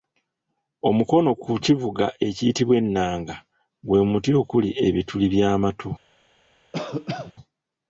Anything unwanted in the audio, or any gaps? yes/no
yes